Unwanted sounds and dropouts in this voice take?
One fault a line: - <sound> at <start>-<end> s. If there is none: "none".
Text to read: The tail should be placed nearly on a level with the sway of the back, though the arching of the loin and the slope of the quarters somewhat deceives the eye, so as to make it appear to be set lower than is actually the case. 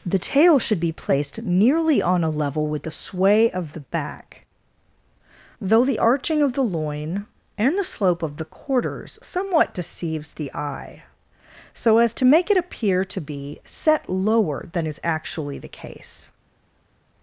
none